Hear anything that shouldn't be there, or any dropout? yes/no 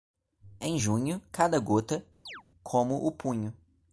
yes